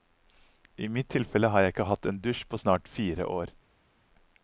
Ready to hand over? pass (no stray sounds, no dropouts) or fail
pass